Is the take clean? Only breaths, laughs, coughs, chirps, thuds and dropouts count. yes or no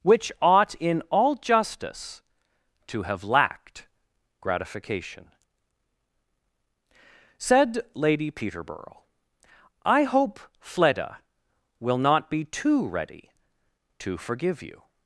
yes